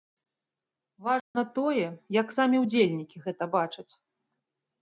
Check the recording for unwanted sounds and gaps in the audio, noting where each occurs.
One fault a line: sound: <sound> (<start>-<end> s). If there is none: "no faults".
sound: dropout (1.2-1.4 s)